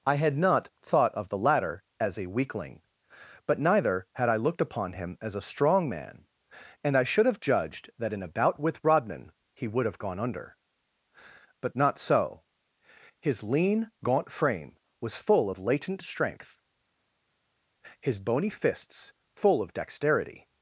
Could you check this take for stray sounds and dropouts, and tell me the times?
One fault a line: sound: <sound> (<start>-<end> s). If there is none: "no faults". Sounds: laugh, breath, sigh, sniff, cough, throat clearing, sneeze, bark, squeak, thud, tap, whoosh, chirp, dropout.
no faults